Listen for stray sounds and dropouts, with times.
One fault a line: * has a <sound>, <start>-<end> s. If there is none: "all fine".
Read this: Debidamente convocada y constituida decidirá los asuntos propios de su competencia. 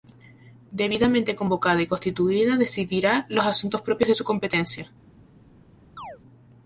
* has a chirp, 6.0-6.2 s